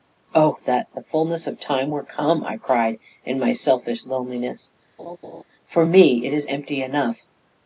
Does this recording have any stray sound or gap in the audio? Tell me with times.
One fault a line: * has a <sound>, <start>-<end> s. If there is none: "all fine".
* has a laugh, 5.0-5.4 s